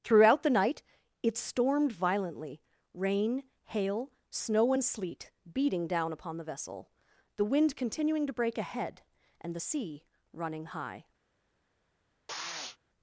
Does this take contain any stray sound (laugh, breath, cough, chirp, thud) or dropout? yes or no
yes